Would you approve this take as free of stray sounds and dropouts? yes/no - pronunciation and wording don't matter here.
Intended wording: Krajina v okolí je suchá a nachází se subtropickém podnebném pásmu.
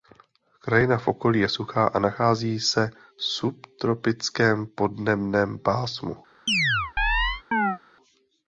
no